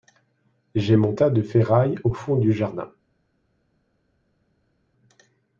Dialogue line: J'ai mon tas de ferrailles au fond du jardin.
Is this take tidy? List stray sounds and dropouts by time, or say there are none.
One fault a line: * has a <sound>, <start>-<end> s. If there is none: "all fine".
all fine